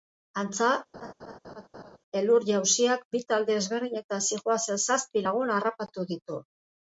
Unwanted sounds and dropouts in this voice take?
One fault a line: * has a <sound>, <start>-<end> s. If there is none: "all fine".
* has a laugh, 0.9-2.0 s